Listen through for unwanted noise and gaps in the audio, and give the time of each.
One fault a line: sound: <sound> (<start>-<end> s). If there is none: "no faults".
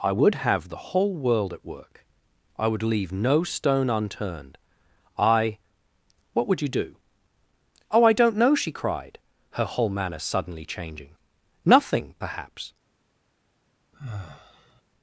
sound: sigh (13.9-14.8 s)